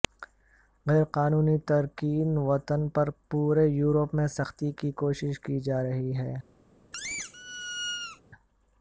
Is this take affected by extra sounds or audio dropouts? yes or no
yes